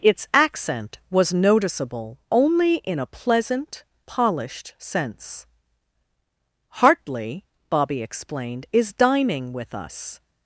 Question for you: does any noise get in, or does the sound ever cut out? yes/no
no